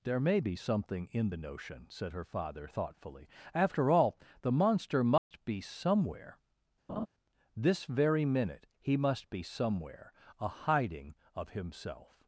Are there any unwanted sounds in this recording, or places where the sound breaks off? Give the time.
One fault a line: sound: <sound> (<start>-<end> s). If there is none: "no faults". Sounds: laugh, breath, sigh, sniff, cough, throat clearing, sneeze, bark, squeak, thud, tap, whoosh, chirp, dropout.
sound: dropout (5.2-5.3 s)
sound: laugh (6.9-7.1 s)